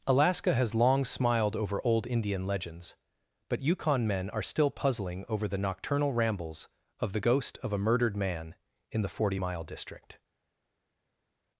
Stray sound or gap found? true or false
false